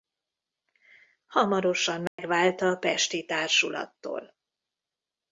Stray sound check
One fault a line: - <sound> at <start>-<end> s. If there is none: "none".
- dropout at 2.1-2.2 s